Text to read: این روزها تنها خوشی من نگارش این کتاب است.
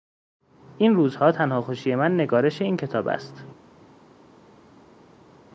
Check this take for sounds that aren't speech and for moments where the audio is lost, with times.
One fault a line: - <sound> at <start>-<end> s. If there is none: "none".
none